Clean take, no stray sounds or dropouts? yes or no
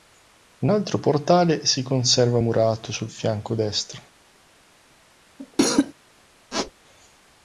no